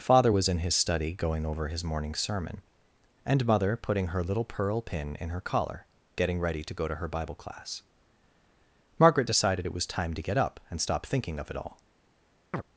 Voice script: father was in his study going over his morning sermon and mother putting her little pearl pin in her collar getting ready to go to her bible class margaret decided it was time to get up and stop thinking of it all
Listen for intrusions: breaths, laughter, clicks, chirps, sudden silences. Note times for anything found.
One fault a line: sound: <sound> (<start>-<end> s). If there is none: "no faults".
sound: chirp (12.5-12.6 s)